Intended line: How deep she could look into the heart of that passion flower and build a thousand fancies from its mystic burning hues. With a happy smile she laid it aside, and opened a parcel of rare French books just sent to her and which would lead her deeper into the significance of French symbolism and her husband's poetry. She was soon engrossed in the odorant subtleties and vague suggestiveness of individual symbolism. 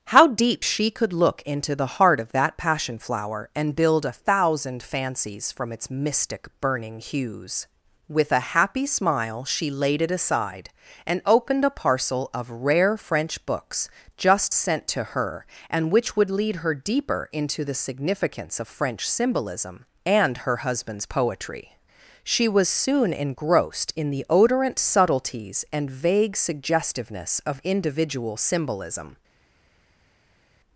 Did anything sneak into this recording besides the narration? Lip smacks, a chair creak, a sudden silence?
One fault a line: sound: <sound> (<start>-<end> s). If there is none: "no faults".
no faults